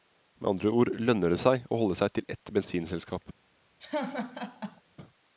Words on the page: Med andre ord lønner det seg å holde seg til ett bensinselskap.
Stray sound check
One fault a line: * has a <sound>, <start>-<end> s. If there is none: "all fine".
* has a laugh, 3.8-4.8 s